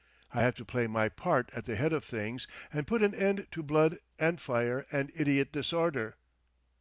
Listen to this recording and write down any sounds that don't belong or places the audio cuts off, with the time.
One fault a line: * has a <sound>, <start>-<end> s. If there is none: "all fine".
all fine